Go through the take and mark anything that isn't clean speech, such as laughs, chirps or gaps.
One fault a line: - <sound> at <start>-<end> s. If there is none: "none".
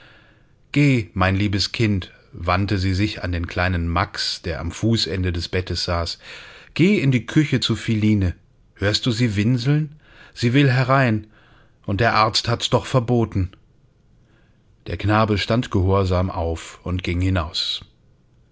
none